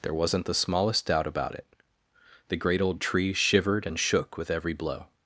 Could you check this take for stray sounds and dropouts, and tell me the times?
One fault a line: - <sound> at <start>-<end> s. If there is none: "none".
none